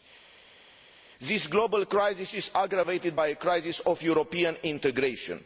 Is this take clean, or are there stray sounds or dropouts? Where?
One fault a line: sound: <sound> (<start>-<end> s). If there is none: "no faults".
no faults